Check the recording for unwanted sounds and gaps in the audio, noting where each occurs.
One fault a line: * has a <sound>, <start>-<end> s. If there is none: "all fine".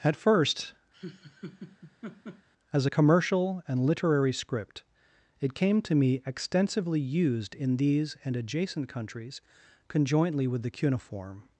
* has a laugh, 0.9-2.5 s